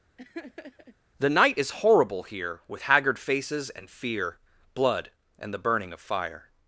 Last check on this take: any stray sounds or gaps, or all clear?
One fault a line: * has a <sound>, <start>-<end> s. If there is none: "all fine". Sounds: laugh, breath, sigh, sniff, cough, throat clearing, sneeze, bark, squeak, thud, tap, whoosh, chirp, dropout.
* has a laugh, 0.2-1.0 s